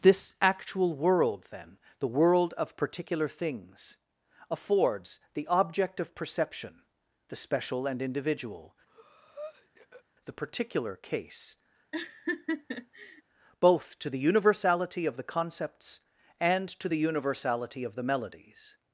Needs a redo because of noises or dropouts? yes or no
yes